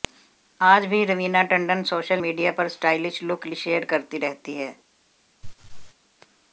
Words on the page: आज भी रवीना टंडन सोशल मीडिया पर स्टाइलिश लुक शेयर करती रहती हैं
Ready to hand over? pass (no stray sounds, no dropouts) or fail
fail